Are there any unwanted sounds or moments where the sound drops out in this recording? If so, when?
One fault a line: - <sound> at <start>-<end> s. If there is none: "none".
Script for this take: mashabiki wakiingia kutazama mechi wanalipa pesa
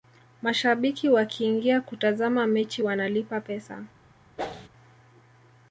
- whoosh at 4.4-4.7 s